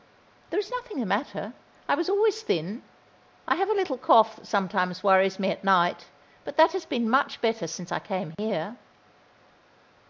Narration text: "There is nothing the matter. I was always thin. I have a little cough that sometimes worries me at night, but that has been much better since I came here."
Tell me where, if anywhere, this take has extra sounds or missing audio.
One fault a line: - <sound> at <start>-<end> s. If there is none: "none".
- dropout at 8.3-8.4 s